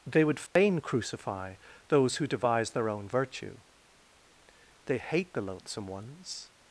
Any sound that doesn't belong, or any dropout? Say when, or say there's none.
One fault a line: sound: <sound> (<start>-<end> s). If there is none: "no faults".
sound: dropout (0.5-0.6 s)